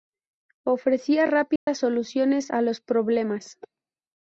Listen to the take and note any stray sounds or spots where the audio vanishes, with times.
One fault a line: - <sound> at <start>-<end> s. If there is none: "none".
- dropout at 1.6-1.7 s